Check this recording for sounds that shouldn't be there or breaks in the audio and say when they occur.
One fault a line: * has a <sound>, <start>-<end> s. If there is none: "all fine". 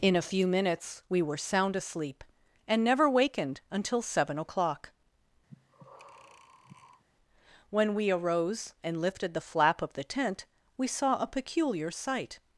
* has a breath, 5.5-7.0 s